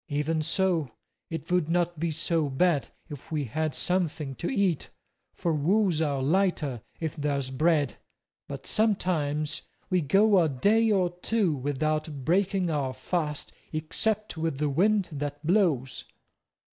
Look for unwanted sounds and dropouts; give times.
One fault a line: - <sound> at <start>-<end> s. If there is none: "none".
none